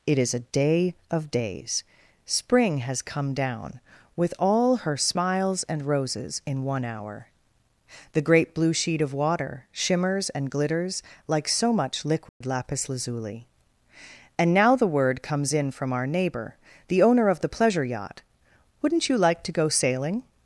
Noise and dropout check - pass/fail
fail